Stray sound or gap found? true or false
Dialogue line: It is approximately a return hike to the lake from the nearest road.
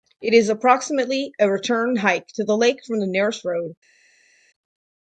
false